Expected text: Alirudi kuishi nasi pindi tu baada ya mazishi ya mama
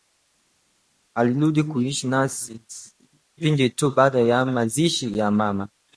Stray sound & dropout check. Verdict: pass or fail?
pass